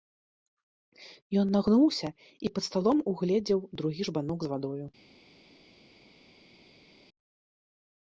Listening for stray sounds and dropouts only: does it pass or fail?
pass